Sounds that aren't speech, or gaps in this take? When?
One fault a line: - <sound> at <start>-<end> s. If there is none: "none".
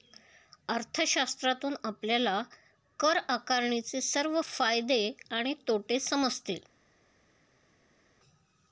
none